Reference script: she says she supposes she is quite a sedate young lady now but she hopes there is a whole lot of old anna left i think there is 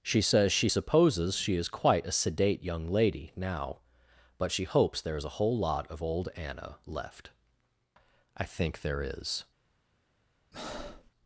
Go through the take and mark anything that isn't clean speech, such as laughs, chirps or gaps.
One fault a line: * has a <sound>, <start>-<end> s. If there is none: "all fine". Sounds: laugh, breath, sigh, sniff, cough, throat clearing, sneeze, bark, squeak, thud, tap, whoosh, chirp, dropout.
* has a breath, 10.5-11.1 s